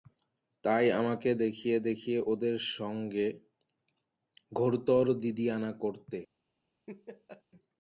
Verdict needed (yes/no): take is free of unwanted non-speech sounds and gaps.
no